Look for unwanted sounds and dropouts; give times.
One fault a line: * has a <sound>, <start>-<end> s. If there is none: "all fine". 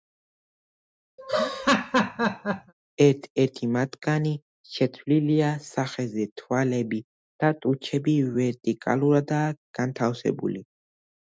* has a laugh, 1.2-2.7 s